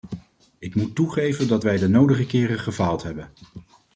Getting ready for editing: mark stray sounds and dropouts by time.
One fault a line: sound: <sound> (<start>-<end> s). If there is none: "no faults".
no faults